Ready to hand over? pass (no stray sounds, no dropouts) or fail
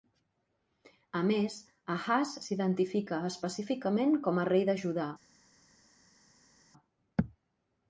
pass